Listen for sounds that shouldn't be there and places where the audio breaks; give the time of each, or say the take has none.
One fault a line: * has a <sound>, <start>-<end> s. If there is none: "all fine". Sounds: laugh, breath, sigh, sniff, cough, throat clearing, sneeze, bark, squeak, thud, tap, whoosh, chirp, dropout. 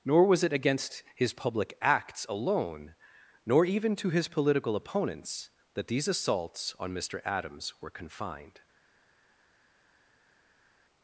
all fine